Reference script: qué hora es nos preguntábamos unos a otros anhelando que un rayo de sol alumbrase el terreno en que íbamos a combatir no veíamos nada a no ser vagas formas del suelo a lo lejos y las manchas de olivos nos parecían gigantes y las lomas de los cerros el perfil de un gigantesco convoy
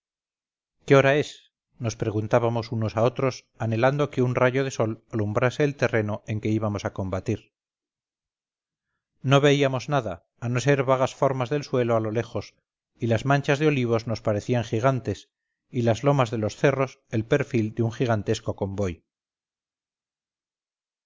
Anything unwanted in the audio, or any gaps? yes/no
no